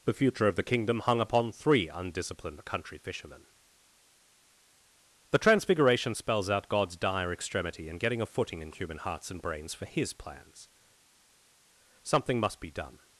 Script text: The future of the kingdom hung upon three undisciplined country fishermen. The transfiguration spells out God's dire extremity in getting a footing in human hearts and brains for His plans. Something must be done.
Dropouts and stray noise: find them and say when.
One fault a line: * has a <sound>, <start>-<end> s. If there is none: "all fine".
all fine